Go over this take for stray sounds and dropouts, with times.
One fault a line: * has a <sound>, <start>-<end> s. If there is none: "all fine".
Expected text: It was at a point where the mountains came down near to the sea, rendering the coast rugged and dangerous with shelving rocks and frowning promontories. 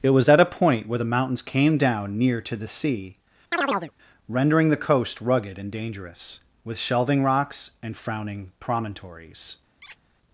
* has a chirp, 3.5-3.9 s
* has a squeak, 9.8-10.0 s